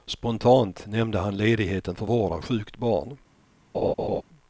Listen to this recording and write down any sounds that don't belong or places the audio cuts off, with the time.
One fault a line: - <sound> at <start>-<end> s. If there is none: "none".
- laugh at 3.7-4.2 s